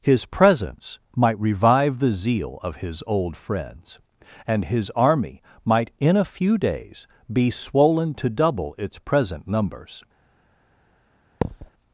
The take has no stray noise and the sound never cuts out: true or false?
false